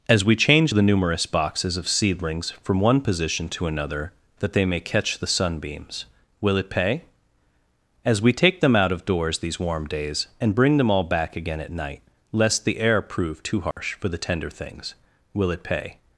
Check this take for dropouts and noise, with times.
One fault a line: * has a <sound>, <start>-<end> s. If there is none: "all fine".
* has a dropout, 13.7-13.8 s